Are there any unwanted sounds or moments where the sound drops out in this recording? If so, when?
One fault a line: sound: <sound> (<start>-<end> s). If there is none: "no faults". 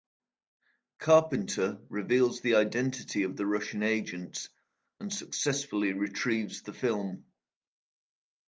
no faults